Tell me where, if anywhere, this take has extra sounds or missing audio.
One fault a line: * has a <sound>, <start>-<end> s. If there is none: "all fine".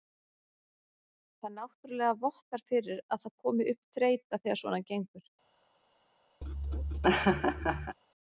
* has a laugh, 6.4-8.0 s